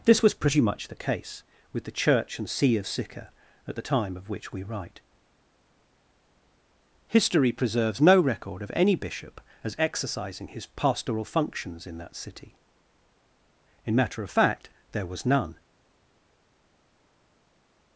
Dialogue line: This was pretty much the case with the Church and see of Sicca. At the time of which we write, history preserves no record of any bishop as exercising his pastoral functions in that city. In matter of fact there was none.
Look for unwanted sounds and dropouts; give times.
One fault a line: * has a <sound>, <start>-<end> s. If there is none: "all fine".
all fine